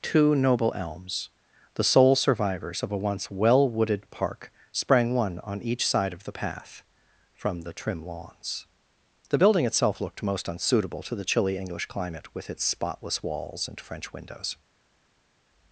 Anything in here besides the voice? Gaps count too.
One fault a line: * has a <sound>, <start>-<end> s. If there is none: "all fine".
all fine